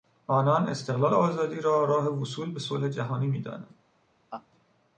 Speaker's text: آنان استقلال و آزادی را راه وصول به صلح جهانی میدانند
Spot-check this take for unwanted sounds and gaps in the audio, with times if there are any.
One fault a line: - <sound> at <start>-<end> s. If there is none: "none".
- laugh at 4.3-4.5 s